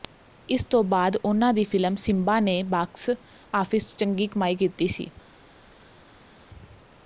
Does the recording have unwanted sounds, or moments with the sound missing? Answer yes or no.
no